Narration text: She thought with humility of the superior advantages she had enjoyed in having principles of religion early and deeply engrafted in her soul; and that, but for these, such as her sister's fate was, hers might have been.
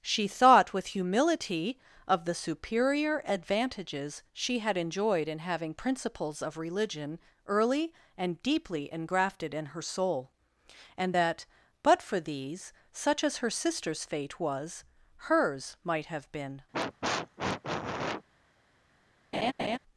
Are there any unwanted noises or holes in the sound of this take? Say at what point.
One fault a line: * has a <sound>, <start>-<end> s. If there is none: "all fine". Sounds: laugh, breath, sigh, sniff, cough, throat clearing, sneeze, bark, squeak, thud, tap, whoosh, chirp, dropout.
* has a sniff, 16.7-18.2 s
* has a laugh, 19.3-19.8 s